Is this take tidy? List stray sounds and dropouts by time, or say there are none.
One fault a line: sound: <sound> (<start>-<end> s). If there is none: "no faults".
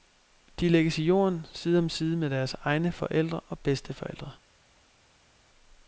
no faults